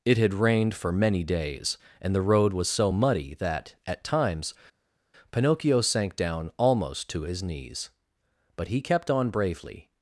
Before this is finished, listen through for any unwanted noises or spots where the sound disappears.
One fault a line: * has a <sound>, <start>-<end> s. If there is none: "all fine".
all fine